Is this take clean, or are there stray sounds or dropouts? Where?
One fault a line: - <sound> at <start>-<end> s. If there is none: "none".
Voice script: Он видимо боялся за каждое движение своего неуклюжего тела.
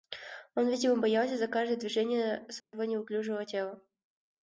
- dropout at 2.6-2.7 s